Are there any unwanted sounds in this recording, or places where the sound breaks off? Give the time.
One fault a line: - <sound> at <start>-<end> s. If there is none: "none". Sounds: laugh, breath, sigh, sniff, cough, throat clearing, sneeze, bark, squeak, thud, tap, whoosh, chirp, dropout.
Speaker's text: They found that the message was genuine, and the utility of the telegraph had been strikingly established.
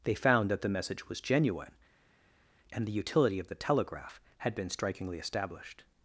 none